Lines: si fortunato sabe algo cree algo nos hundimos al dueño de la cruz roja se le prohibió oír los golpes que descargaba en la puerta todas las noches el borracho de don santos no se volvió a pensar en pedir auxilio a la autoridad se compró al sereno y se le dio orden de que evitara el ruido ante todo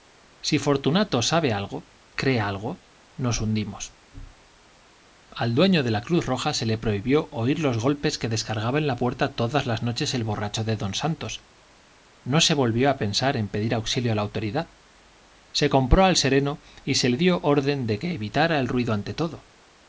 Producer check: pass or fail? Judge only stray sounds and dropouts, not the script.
pass